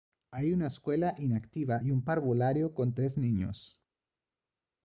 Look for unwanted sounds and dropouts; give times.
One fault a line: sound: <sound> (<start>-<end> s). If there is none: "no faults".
no faults